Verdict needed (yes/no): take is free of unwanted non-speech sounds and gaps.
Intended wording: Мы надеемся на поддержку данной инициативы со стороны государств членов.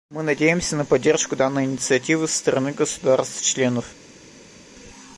yes